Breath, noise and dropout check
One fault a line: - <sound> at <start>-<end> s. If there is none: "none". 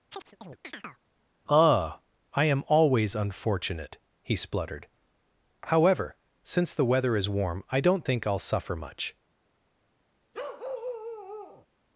- chirp at 0.1-1.0 s
- bark at 10.3-11.7 s